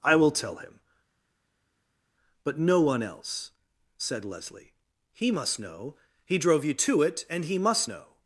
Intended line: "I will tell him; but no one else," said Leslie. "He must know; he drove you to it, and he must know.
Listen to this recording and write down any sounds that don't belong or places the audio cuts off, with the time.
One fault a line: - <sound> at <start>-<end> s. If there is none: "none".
none